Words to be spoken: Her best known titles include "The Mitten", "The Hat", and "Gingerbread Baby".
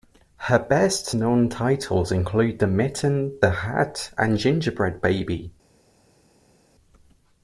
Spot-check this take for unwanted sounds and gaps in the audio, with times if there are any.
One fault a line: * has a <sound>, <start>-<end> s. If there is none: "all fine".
all fine